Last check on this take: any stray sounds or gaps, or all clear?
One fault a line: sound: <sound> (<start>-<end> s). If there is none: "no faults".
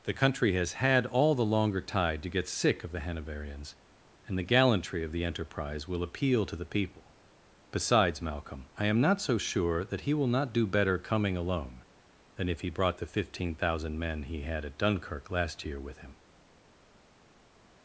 no faults